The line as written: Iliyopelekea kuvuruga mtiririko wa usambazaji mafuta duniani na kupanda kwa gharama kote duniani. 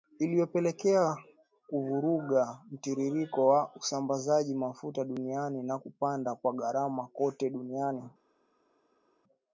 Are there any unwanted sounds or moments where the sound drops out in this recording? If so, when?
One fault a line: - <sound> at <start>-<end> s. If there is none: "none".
none